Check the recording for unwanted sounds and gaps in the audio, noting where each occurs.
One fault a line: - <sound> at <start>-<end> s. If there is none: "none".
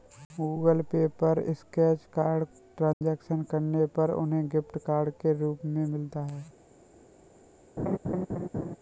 - dropout at 2.9-3.0 s
- laugh at 7.8-8.8 s